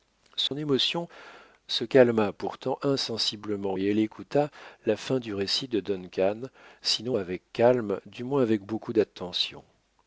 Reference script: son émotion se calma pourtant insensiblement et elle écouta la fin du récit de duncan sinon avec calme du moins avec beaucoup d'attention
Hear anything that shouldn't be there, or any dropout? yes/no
yes